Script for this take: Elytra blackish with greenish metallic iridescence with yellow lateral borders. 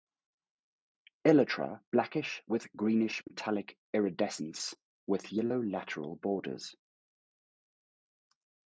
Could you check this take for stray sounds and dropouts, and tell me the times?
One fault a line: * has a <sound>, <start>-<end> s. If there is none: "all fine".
all fine